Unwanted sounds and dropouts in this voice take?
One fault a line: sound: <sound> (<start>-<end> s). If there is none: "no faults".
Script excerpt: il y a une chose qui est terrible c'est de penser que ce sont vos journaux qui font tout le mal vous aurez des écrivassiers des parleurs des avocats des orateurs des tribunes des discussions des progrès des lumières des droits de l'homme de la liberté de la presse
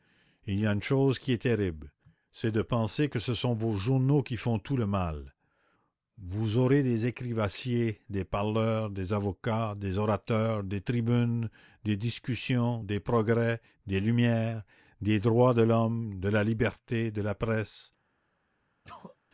sound: sneeze (18.8-19.2 s)